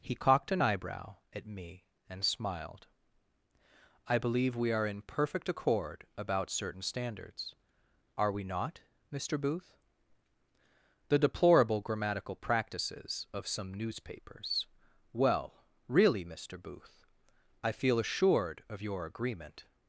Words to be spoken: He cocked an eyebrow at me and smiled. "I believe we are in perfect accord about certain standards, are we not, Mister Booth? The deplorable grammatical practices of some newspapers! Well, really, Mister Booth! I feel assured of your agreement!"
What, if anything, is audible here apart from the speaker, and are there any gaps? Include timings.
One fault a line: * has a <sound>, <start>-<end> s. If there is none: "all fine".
all fine